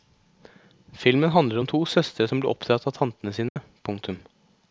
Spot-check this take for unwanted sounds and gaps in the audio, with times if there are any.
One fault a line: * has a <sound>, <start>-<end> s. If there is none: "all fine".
* has a dropout, 3.5-3.6 s